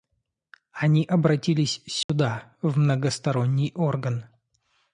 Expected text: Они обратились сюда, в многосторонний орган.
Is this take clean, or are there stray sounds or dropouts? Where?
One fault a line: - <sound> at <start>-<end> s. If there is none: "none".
- dropout at 2.0-2.1 s